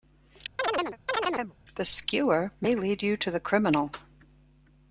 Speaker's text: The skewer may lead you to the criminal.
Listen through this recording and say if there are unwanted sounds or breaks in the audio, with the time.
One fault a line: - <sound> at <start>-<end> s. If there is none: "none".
- chirp at 0.6-1.5 s